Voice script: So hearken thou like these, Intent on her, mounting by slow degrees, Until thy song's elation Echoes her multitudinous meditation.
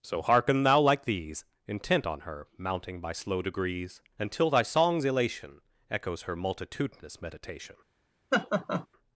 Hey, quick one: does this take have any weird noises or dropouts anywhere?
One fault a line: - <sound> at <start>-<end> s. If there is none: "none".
- laugh at 8.3-8.9 s